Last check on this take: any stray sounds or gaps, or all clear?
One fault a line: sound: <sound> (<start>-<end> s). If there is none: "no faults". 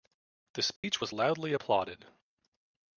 sound: dropout (0.8-0.8 s)